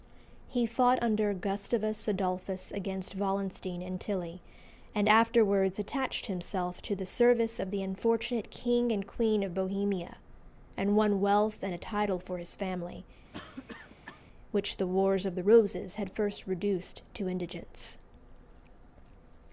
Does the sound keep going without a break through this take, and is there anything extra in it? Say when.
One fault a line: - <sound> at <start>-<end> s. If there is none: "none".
- cough at 13.3-14.3 s